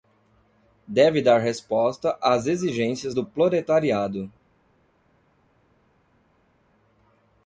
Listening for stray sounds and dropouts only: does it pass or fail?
pass